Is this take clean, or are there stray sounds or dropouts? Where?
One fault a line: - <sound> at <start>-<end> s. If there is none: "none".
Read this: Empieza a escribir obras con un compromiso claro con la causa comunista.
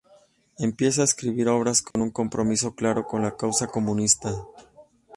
- dropout at 1.9-2.0 s